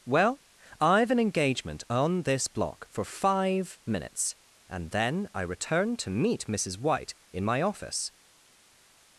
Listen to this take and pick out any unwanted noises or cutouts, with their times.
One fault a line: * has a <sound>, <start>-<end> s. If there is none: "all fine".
all fine